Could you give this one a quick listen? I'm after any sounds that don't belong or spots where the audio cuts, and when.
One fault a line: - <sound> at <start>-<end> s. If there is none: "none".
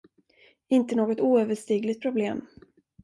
none